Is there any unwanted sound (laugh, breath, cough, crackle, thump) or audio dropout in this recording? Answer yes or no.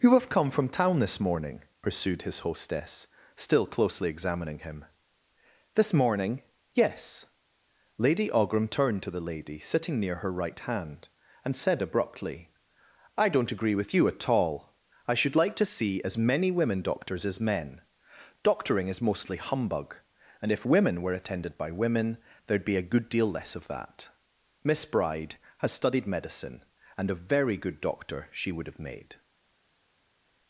no